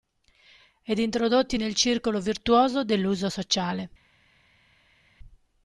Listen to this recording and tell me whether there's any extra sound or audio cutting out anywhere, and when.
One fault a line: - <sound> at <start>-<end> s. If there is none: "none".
none